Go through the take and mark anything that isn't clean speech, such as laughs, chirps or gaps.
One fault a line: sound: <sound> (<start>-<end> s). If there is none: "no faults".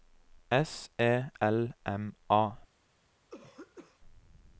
sound: throat clearing (3.3-4.0 s)